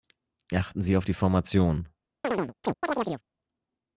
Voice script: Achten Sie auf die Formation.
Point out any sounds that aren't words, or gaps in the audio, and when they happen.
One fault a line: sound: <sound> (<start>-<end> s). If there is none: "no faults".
sound: chirp (2.2-3.2 s)